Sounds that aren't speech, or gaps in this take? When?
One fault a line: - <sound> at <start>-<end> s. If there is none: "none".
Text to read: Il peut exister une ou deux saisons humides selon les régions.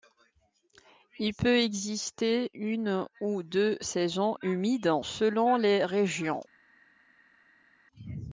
none